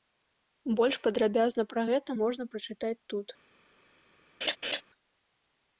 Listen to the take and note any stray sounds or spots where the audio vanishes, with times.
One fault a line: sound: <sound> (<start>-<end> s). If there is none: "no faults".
sound: laugh (4.4-4.8 s)